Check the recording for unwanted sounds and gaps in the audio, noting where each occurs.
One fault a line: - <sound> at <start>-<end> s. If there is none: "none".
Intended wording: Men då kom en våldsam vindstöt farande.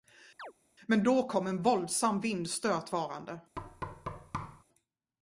- chirp at 0.4-0.5 s
- thud at 3.6-4.6 s